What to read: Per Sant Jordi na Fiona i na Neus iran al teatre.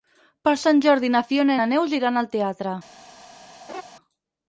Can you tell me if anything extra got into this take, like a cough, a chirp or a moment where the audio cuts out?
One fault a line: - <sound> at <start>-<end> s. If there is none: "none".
- laugh at 3.7-3.8 s